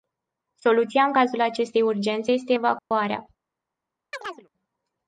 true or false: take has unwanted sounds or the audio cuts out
true